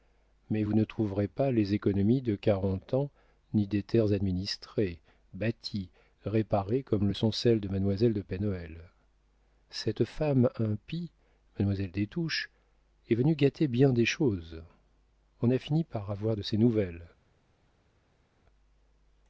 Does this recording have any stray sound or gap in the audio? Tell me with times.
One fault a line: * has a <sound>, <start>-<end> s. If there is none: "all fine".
all fine